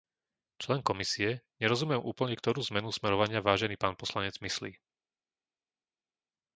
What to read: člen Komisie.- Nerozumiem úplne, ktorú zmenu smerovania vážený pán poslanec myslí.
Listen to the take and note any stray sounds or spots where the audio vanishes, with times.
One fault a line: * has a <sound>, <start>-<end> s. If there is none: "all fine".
all fine